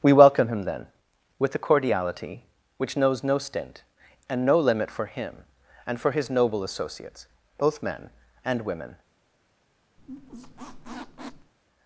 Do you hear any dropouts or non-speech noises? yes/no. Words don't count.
yes